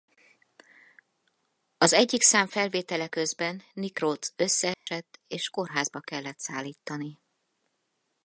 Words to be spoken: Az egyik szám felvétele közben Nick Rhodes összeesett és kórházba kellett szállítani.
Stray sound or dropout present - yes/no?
yes